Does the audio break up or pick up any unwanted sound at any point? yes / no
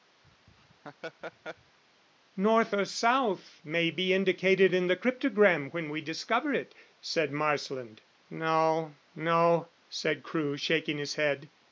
yes